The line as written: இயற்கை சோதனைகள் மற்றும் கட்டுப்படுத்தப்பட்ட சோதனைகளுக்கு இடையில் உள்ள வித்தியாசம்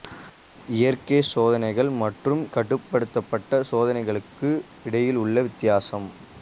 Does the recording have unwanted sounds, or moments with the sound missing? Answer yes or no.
no